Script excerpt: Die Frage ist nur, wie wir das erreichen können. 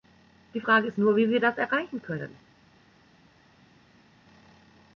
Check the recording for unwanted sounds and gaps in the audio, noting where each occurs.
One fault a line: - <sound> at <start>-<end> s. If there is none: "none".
none